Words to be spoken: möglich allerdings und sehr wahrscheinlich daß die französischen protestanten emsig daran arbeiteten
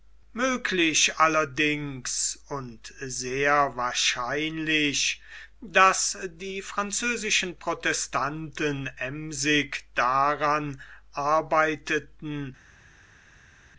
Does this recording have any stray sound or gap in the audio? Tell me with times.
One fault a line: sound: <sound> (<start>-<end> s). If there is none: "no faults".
no faults